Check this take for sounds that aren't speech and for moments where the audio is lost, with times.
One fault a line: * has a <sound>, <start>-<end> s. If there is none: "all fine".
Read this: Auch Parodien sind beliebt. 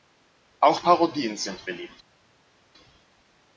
all fine